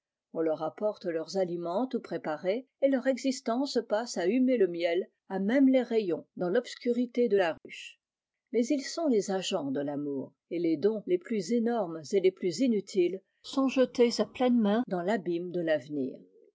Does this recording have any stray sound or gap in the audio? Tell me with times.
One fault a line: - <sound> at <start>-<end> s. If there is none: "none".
- dropout at 7.6-7.6 s